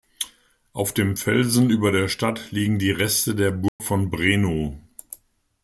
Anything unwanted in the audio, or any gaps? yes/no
yes